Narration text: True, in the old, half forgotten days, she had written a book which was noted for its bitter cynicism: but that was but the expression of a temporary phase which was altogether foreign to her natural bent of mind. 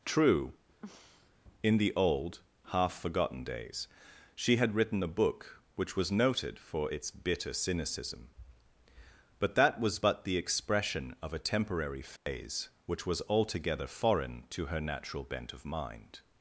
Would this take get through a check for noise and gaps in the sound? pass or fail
fail